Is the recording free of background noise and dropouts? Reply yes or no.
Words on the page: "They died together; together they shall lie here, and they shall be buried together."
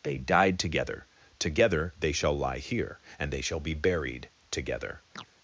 no